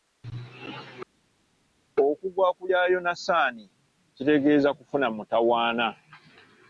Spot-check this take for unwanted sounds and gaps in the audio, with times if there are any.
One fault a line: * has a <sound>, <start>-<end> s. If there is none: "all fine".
all fine